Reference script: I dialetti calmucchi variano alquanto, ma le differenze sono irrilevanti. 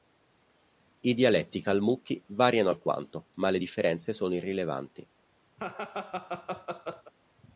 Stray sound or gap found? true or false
true